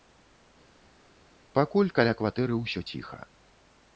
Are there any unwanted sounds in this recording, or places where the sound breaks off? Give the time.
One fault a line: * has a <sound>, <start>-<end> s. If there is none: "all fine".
all fine